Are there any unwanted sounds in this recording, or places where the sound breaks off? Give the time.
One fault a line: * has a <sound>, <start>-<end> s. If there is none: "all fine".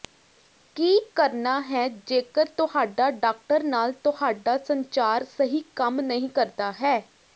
all fine